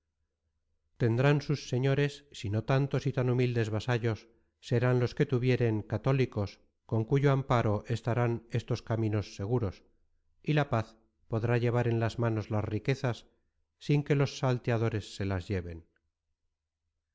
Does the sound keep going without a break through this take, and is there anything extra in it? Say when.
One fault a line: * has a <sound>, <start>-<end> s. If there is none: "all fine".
all fine